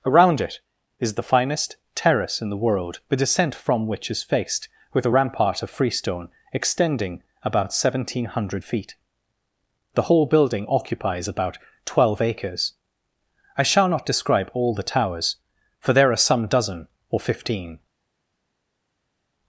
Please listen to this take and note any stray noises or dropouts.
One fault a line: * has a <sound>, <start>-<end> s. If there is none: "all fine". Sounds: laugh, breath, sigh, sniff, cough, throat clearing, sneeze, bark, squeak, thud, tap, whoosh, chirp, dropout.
all fine